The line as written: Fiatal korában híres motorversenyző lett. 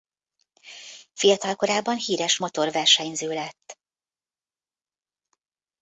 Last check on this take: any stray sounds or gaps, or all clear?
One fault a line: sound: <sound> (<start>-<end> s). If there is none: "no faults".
no faults